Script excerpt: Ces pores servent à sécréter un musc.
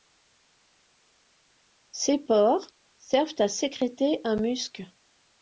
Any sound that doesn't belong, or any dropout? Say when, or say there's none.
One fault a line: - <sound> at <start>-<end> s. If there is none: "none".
none